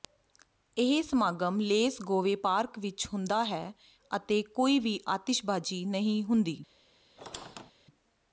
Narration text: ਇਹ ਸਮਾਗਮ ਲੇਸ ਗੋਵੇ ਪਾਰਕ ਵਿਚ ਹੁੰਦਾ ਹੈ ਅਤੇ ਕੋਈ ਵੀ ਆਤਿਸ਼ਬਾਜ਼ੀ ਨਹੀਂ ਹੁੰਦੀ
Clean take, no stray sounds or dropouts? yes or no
no